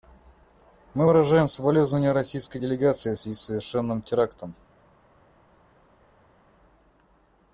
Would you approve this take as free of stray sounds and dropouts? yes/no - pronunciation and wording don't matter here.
yes